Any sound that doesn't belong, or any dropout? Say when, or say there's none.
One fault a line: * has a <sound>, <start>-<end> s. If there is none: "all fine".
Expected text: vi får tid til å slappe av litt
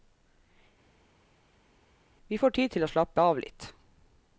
all fine